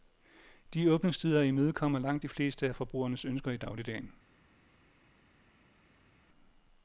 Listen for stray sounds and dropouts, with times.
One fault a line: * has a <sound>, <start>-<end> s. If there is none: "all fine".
all fine